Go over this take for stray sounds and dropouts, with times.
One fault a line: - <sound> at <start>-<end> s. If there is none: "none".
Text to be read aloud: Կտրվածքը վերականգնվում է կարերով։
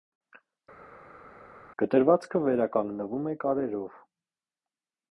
none